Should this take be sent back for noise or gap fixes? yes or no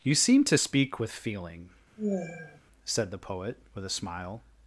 yes